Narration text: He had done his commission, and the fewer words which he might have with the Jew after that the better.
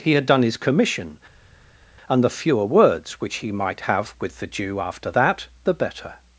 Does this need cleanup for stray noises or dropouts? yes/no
no